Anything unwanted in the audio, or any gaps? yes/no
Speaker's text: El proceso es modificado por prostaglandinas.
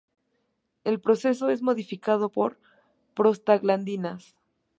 no